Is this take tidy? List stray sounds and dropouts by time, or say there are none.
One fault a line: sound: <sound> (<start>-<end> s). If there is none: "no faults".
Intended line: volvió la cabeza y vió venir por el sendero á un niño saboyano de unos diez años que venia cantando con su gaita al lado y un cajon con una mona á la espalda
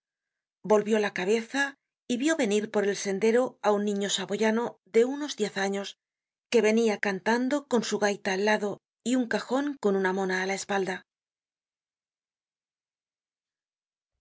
no faults